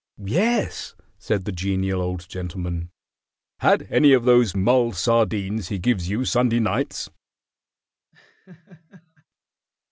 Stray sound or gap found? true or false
true